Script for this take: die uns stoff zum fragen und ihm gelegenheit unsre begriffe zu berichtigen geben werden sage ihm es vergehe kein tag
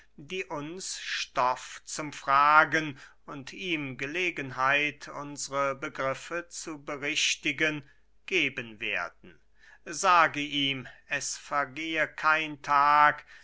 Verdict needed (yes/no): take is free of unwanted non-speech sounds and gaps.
yes